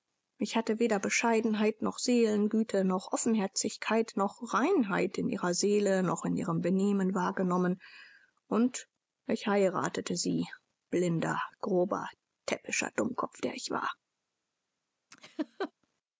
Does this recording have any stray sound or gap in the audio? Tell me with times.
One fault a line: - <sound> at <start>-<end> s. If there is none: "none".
- laugh at 15.1-15.7 s